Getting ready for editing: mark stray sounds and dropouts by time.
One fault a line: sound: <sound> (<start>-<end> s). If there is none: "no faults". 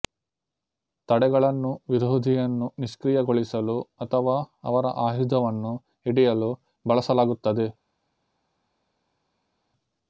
no faults